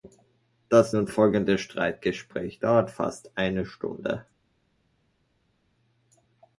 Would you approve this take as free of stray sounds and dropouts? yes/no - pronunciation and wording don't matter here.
yes